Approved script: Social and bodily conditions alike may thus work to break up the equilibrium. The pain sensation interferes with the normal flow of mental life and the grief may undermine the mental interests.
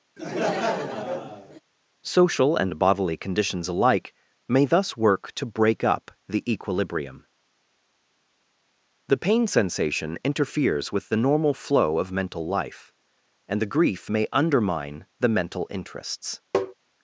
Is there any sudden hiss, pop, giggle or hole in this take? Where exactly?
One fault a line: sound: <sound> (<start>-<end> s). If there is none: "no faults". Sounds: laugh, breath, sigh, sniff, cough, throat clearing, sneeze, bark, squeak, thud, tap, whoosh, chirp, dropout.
sound: laugh (0.2-1.6 s)
sound: tap (16.5-16.7 s)